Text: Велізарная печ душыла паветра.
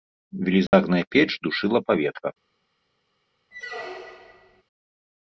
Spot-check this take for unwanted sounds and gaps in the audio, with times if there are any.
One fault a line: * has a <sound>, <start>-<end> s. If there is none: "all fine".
* has a dropout, 0.7-0.7 s
* has a squeak, 3.5-4.6 s